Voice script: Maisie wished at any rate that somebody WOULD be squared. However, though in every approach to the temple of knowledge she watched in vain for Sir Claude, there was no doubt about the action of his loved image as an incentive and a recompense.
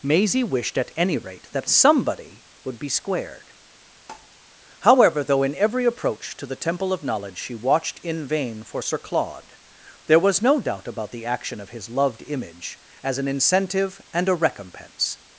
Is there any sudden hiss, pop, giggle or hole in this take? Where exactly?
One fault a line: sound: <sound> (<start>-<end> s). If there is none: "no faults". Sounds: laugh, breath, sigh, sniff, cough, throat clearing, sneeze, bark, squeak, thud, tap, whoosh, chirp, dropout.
sound: tap (4.1-4.3 s)